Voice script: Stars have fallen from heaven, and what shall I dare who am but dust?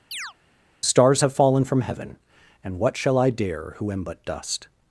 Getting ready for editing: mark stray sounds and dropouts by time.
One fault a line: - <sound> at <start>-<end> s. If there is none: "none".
- chirp at 0.1-0.3 s